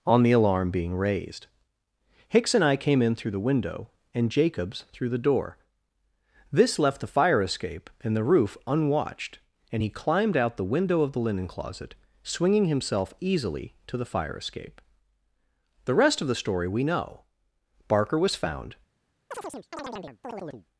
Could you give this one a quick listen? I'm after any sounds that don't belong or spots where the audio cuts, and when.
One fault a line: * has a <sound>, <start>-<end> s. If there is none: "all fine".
* has a chirp, 19.3-20.7 s